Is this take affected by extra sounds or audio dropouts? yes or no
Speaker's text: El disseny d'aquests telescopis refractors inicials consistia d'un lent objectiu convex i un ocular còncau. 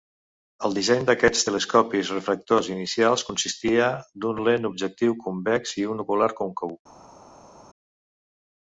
no